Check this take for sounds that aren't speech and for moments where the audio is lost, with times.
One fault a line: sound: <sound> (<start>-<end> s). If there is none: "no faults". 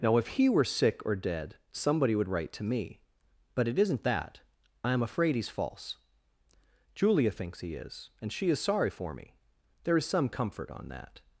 no faults